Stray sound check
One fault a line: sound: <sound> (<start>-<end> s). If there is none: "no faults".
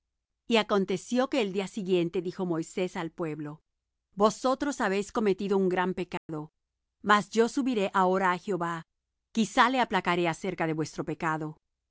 sound: dropout (6.2-6.3 s)